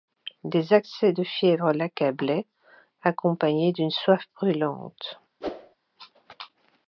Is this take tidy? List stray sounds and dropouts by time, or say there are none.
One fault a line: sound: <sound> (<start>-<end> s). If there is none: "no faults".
sound: whoosh (5.4-5.8 s)